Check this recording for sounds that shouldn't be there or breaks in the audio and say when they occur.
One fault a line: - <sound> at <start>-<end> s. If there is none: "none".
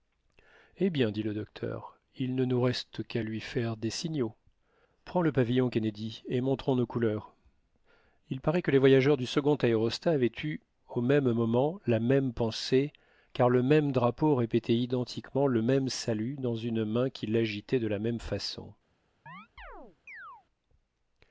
- chirp at 19.3-20.5 s